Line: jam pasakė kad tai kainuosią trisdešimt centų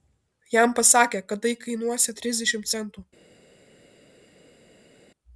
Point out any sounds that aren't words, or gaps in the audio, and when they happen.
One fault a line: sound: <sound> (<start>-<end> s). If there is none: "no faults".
no faults